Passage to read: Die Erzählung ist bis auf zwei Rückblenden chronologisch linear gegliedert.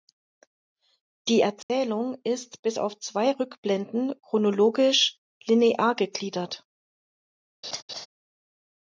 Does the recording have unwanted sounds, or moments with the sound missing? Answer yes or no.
yes